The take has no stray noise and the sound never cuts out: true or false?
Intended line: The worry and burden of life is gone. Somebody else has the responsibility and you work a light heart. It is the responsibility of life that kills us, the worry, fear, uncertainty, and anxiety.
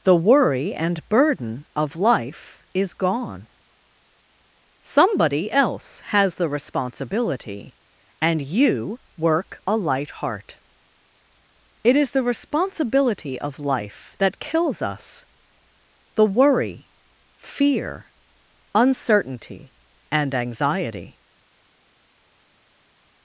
true